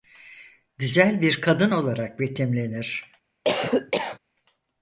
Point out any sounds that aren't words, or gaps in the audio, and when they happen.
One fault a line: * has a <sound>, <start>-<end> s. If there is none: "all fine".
* has a cough, 3.4-4.2 s